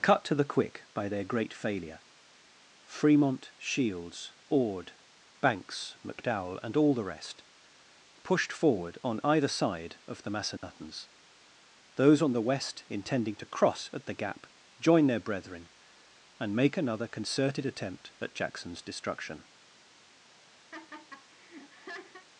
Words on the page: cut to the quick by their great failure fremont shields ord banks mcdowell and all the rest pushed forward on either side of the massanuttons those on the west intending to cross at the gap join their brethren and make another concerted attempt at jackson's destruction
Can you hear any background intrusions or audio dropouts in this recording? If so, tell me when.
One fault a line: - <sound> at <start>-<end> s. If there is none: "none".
- dropout at 10.6-10.6 s
- laugh at 20.7-22.3 s